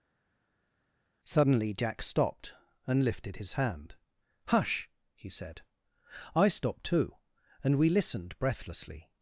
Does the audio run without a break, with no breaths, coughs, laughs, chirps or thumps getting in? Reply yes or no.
yes